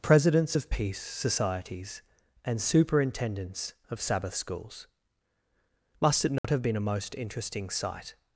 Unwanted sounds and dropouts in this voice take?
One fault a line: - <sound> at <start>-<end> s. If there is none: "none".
- dropout at 6.4-6.4 s